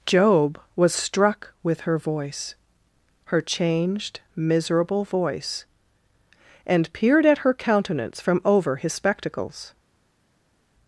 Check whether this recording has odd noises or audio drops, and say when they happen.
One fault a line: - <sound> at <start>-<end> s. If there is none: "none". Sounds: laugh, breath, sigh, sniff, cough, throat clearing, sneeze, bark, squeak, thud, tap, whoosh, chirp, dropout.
none